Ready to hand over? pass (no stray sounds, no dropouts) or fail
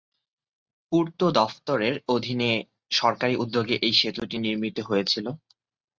pass